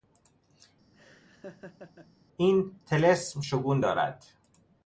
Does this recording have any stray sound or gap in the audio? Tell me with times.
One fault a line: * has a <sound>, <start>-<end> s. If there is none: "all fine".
* has a laugh, 0.9-2.1 s